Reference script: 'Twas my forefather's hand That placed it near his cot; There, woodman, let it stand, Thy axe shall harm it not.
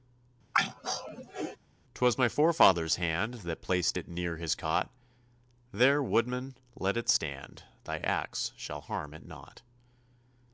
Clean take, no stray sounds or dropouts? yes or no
no